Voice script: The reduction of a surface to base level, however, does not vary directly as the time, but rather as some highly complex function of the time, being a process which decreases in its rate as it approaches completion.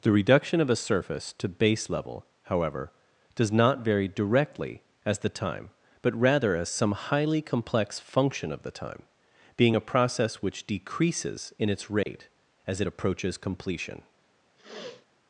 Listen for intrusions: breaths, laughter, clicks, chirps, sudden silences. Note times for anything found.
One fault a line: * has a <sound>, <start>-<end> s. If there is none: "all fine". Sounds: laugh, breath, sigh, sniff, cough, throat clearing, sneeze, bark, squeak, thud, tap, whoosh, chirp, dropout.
* has a dropout, 12.0-12.1 s
* has a sniff, 14.6-15.1 s